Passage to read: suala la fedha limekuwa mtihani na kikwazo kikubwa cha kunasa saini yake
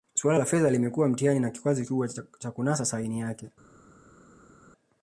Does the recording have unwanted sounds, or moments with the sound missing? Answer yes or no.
no